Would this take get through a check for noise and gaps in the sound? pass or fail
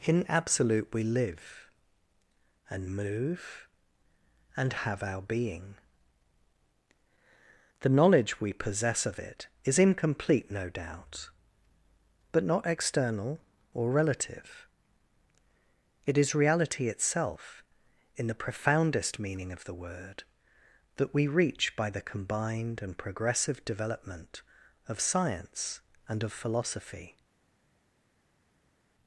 pass